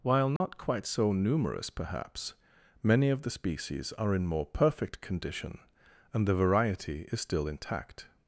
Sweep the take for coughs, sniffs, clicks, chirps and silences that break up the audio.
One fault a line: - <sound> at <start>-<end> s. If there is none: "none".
- dropout at 0.4-0.4 s